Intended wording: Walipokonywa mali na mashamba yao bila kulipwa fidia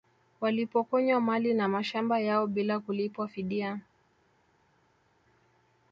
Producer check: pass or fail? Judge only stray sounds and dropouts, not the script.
pass